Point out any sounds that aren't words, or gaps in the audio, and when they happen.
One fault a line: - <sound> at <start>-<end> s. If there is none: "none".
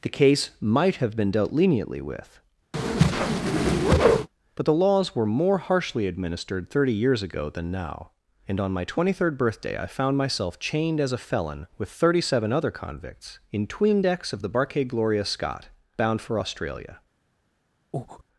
- whoosh at 2.7-4.3 s
- breath at 17.9-18.2 s